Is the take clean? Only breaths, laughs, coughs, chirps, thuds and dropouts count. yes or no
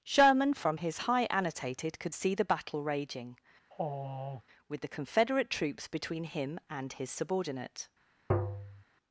no